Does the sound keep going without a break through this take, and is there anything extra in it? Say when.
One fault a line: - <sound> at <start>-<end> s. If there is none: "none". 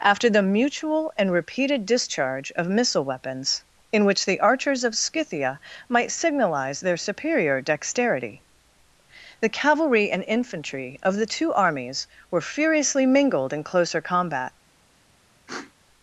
- sniff at 15.5-15.7 s